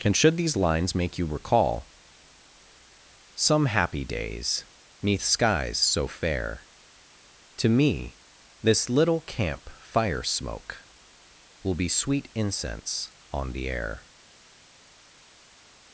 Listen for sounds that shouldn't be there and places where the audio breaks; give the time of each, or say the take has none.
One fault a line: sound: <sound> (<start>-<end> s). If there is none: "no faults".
no faults